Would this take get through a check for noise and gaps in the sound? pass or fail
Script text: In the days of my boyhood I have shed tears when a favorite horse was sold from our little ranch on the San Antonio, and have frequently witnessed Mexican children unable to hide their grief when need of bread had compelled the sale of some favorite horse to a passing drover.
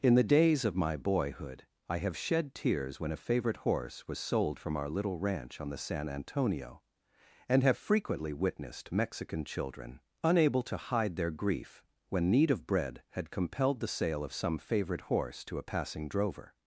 pass